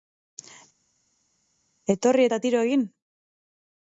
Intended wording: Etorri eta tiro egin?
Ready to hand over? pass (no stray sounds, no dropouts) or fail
pass